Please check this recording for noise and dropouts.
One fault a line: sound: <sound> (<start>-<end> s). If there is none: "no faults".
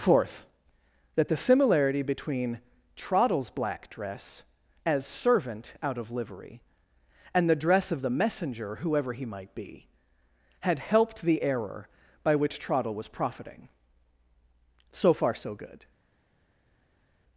no faults